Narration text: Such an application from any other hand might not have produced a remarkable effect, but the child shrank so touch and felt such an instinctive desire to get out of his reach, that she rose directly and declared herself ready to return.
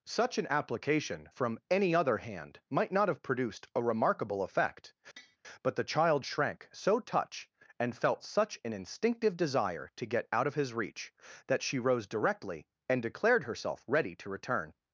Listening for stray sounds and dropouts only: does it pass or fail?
fail